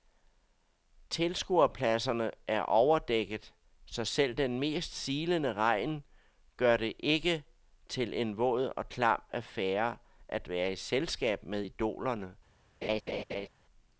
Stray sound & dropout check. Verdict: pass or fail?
fail